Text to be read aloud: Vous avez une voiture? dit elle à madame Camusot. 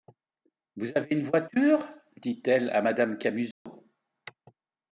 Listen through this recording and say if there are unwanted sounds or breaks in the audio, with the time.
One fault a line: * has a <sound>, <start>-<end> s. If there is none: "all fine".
* has a dropout, 3.5-3.7 s